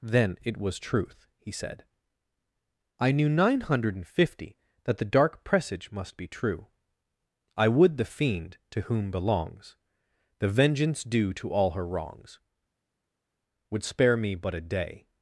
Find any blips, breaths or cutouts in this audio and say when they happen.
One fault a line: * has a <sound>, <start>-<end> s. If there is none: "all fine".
all fine